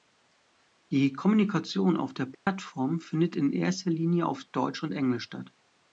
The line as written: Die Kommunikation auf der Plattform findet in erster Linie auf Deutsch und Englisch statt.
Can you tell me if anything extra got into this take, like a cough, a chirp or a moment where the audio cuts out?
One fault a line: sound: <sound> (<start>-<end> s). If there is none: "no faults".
sound: dropout (2.3-2.5 s)